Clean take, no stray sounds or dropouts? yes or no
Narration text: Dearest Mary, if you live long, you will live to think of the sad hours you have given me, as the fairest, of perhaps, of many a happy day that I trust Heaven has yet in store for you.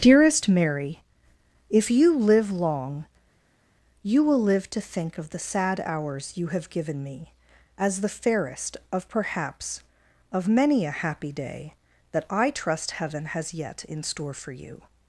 yes